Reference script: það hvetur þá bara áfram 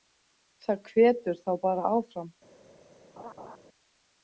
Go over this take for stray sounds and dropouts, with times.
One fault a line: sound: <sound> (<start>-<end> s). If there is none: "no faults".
sound: laugh (3.2-3.6 s)